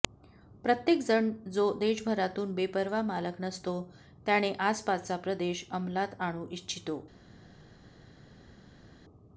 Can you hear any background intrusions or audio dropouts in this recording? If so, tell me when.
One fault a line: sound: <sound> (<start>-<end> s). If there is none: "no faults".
no faults